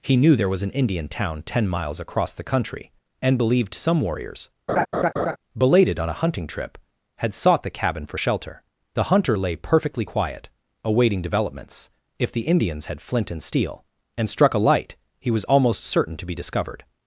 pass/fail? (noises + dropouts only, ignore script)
fail